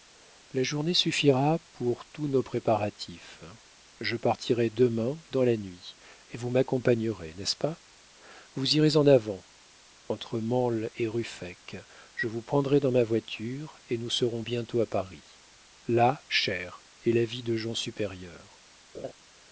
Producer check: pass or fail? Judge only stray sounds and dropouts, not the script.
fail